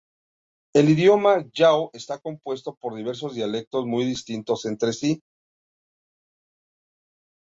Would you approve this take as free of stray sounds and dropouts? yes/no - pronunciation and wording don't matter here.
yes